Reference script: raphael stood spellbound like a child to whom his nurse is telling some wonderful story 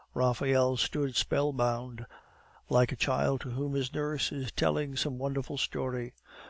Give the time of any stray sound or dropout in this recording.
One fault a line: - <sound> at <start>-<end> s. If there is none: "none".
none